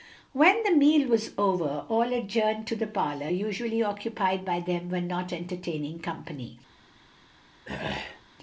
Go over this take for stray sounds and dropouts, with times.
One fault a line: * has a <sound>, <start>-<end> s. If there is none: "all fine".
* has a throat clearing, 7.7-8.2 s